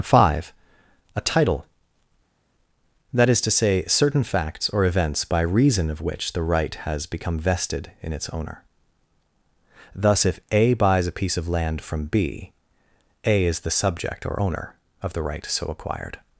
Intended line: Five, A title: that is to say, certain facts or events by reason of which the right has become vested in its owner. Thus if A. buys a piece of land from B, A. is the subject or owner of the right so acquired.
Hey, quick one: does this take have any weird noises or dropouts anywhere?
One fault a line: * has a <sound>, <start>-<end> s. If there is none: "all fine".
all fine